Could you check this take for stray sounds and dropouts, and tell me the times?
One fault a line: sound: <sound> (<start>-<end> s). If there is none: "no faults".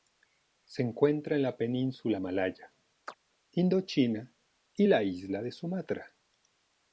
sound: chirp (3.1-3.2 s)